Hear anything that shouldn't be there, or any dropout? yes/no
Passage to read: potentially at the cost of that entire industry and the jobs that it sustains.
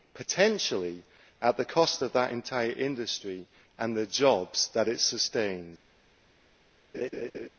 yes